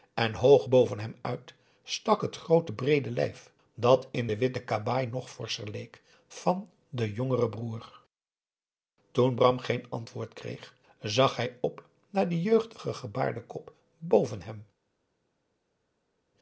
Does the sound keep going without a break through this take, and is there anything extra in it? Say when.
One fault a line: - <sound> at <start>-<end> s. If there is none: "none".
none